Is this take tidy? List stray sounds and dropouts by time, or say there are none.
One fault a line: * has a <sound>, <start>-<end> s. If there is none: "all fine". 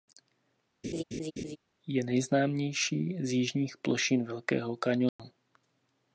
* has a laugh, 0.8-1.6 s
* has a dropout, 5.1-5.2 s